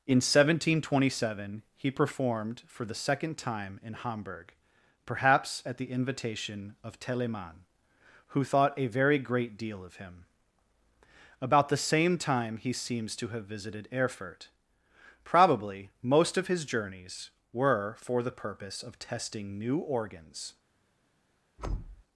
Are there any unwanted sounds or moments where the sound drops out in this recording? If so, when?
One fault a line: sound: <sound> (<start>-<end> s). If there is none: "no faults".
sound: thud (21.6-22.0 s)